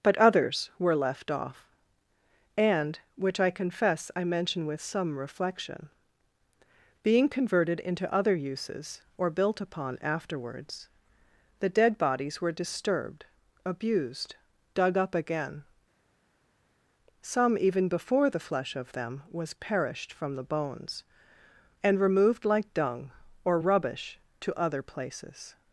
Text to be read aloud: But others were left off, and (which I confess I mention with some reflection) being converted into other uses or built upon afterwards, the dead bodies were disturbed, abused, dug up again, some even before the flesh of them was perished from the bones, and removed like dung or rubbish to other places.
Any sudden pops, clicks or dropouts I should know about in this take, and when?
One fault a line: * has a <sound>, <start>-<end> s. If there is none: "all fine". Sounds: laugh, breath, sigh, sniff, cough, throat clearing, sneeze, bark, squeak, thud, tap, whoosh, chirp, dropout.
all fine